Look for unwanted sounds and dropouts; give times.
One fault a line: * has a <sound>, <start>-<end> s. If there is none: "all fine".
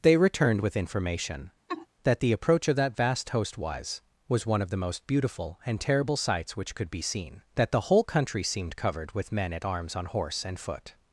* has a laugh, 1.7-1.9 s